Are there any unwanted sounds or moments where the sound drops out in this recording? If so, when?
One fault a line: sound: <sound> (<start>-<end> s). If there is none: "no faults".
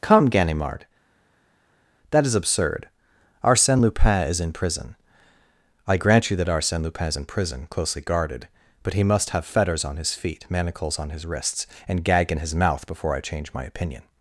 no faults